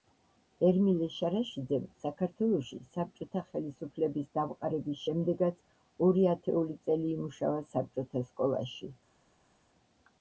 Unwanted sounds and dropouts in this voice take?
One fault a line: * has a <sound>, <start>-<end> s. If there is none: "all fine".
all fine